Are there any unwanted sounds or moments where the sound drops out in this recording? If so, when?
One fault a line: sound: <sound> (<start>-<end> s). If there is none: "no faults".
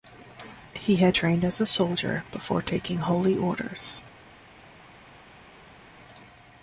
no faults